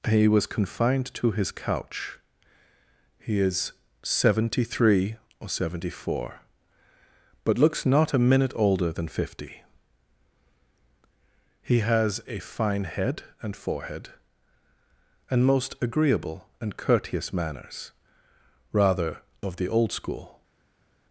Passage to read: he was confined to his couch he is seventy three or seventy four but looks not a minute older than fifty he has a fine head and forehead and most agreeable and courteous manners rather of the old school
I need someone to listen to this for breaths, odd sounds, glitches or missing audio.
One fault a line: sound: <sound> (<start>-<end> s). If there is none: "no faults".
no faults